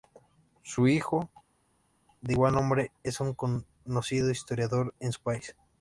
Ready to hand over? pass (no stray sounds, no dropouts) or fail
pass